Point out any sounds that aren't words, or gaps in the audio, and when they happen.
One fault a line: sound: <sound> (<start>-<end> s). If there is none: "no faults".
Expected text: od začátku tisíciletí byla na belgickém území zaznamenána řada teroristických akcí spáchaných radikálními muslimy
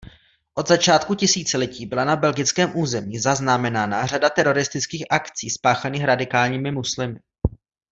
no faults